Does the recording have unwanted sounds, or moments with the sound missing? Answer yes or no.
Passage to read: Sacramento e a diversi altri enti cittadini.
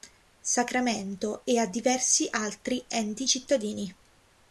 no